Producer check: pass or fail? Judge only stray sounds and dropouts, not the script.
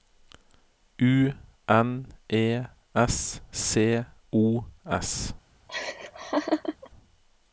fail